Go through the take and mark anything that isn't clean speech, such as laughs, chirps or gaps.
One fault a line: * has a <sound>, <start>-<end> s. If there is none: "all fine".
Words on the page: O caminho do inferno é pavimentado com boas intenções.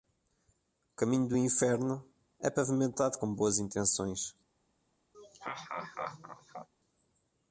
* has a laugh, 5.1-6.7 s